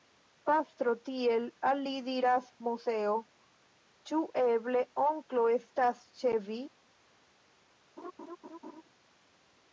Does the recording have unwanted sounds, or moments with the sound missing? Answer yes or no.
yes